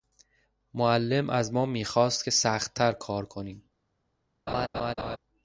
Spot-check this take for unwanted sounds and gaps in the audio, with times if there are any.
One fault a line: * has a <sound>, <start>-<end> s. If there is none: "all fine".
* has a laugh, 4.5-5.2 s